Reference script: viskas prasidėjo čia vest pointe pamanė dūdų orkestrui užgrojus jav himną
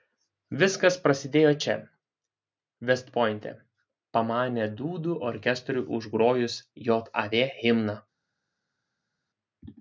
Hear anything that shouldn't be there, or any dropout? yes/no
no